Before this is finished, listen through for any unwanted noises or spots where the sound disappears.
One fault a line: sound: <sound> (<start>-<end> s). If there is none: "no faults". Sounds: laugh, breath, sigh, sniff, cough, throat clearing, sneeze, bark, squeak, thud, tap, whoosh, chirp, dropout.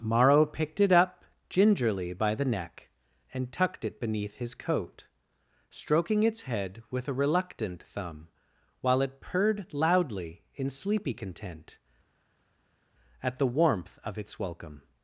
no faults